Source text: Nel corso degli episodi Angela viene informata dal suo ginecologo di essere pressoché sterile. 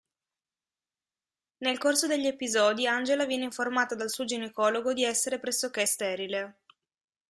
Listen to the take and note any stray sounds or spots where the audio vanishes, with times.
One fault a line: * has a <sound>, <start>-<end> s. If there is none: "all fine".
all fine